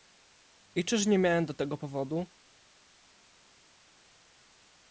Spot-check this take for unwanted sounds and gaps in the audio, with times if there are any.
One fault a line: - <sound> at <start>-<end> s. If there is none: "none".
none